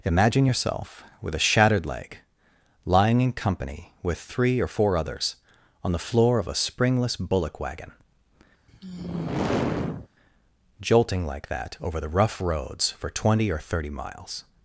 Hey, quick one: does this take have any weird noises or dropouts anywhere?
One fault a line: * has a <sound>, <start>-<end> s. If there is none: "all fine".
* has a sigh, 8.7-10.1 s